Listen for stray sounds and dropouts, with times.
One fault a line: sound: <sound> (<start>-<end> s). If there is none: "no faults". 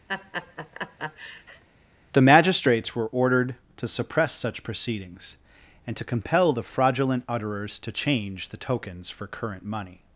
sound: laugh (0.1-1.6 s)